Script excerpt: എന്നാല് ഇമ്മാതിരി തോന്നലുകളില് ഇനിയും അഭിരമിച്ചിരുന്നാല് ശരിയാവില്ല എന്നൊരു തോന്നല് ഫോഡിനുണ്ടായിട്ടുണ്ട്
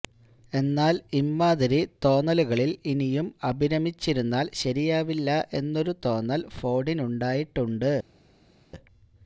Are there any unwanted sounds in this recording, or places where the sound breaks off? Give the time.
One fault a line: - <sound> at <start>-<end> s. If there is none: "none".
none